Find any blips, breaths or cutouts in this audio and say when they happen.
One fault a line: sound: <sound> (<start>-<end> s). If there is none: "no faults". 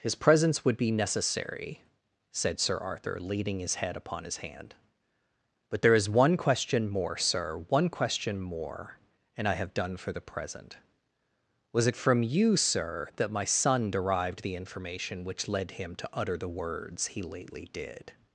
no faults